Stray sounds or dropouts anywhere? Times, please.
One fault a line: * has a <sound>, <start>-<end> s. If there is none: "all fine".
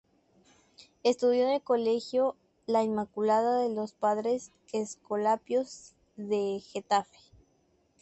all fine